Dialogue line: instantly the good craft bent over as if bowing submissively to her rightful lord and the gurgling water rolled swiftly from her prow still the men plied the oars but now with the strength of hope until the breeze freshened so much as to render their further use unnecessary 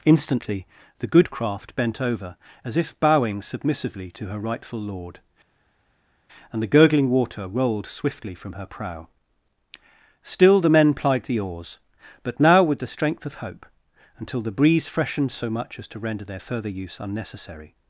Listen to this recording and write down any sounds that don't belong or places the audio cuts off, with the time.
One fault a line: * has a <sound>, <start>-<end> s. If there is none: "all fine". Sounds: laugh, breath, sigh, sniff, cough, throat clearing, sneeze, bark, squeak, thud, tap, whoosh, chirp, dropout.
all fine